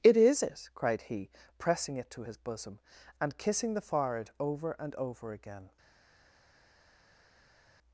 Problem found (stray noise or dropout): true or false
false